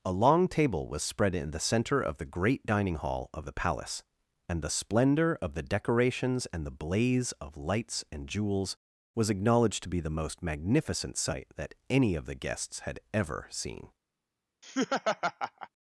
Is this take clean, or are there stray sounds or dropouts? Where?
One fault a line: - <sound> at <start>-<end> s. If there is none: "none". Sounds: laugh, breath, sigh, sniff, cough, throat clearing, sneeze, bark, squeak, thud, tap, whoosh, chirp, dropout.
- laugh at 14.6-15.7 s